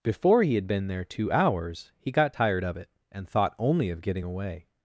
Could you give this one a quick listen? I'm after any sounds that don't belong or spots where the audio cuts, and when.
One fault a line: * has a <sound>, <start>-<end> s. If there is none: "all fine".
all fine